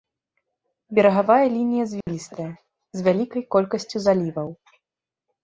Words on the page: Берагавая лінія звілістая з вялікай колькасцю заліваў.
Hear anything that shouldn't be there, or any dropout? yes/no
yes